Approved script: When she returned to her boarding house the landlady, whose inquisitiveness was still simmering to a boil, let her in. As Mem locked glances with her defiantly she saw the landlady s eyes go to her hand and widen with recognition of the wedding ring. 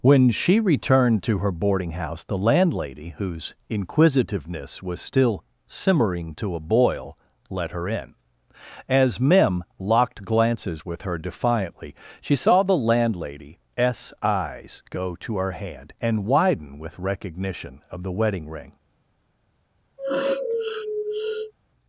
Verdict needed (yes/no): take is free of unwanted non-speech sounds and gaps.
no